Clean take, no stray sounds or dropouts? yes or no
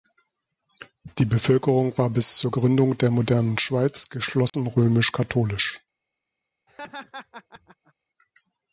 no